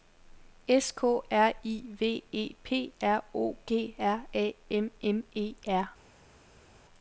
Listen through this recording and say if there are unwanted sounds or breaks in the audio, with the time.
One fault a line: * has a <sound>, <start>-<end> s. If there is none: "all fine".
all fine